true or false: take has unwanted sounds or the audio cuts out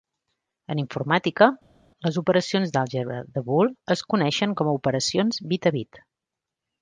false